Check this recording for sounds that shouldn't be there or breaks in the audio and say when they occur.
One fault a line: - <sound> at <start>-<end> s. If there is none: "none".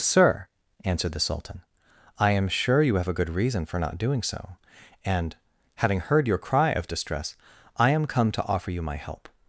none